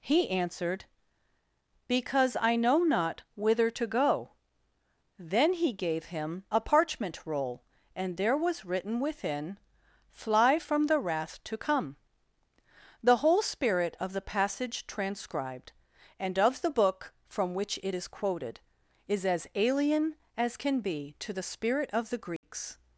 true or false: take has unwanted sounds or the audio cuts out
true